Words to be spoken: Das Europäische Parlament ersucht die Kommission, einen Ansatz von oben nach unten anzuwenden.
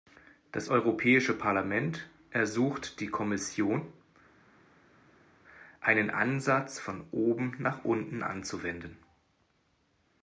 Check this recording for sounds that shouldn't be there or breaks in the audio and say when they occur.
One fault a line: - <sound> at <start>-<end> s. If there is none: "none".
none